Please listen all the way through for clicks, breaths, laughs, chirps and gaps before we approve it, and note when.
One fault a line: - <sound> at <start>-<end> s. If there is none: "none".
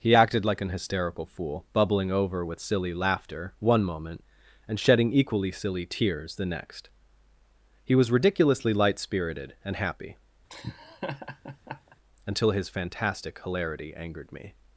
- laugh at 10.5-12.0 s